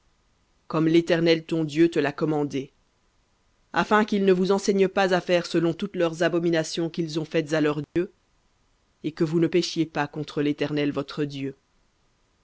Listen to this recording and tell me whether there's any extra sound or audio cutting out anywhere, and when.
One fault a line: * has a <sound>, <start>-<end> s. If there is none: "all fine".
* has a dropout, 7.8-8.0 s